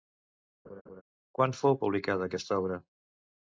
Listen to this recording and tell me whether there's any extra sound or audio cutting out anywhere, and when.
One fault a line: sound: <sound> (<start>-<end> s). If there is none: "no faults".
sound: laugh (0.6-1.0 s)